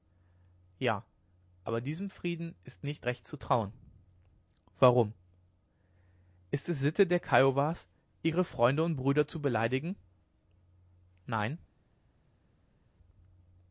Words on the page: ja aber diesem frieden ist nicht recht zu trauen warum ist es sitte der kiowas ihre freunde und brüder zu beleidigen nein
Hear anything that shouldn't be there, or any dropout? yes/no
no